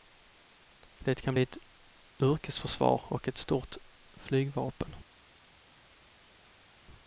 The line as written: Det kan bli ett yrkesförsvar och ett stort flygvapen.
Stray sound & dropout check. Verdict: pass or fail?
pass